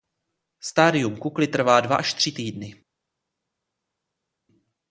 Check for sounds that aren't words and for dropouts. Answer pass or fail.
pass